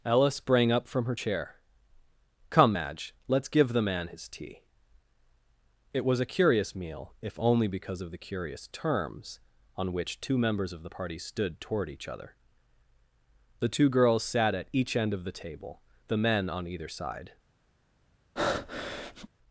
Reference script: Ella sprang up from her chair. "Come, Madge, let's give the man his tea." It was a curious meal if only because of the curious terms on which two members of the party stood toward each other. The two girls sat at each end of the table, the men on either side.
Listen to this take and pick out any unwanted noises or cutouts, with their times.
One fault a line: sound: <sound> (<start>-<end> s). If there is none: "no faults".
sound: breath (18.4-19.3 s)